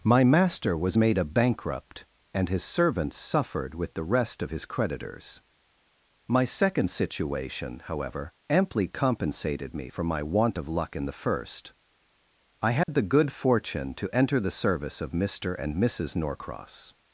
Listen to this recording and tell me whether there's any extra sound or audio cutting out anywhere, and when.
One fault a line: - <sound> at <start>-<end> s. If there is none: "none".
- dropout at 12.8-12.9 s